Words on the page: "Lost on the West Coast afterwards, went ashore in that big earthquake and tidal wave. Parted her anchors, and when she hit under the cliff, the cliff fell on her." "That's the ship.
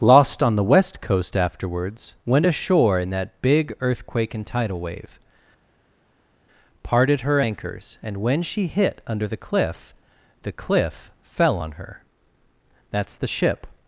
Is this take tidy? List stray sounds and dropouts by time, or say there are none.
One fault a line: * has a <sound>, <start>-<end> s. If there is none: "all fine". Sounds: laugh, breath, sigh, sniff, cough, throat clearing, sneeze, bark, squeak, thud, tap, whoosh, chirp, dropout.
all fine